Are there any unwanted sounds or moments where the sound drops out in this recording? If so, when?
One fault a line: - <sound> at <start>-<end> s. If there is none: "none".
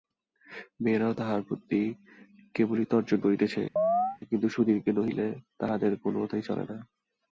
- chirp at 3.8-4.2 s